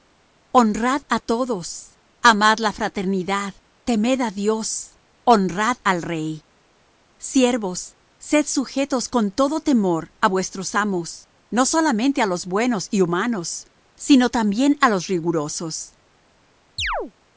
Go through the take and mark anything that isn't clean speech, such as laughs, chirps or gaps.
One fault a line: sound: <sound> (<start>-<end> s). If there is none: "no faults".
sound: chirp (16.8-17.1 s)